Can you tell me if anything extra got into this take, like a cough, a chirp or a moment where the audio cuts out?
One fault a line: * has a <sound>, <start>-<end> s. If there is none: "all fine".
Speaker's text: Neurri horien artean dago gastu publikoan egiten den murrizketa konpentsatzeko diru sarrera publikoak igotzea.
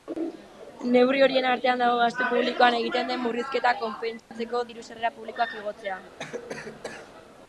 * has a dropout, 4.2-4.3 s
* has a cough, 6.2-7.1 s